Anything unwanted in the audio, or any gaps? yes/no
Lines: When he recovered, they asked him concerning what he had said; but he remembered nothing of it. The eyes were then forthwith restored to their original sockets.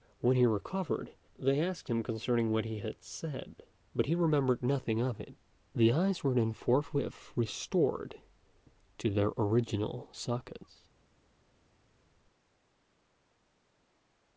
no